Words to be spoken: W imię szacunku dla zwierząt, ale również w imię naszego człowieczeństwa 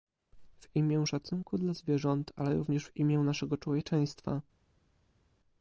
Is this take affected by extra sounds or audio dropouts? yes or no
no